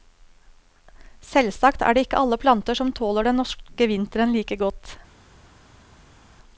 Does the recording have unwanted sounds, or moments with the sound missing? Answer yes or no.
no